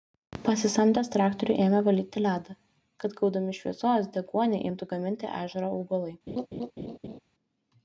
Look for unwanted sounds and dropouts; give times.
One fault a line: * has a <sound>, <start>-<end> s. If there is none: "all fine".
* has a laugh, 6.3-7.2 s